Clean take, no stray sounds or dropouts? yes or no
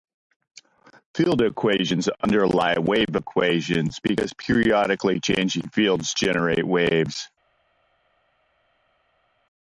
yes